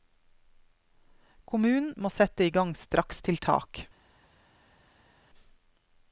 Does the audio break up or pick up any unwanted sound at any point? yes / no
no